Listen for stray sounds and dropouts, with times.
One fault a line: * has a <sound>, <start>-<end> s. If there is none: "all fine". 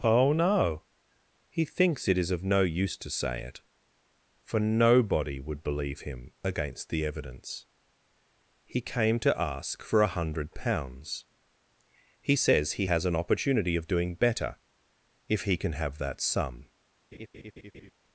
* has a laugh, 17.1-17.9 s